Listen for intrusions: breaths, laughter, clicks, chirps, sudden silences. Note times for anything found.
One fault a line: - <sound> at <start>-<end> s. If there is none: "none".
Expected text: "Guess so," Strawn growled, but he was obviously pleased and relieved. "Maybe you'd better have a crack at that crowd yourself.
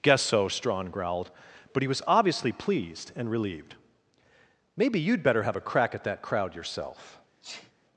- sneeze at 7.4-7.7 s